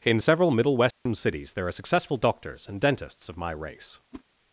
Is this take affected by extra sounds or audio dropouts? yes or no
yes